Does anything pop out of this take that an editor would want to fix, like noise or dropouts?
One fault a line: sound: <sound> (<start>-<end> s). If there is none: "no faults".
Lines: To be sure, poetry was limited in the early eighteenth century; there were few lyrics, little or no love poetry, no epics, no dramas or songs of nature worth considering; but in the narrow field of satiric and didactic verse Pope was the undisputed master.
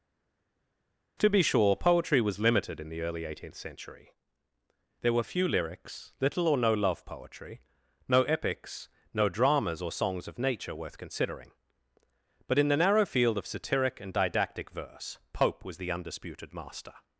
no faults